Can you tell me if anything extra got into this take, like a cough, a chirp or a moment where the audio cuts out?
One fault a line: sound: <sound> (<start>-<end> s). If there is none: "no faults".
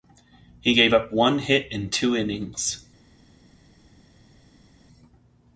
no faults